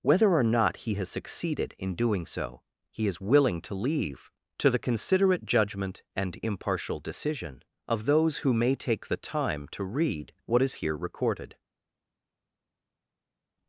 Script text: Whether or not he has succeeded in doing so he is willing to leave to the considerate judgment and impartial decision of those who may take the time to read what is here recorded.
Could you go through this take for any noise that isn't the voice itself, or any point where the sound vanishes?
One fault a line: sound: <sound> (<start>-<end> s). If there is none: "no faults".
no faults